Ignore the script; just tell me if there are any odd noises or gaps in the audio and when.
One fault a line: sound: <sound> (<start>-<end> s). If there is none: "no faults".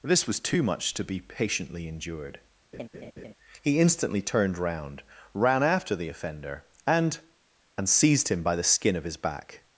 sound: laugh (2.7-3.3 s)